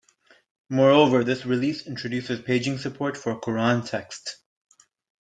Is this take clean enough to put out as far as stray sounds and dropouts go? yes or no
yes